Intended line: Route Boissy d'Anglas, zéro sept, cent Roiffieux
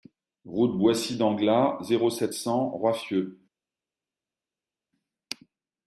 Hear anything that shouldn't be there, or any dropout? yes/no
no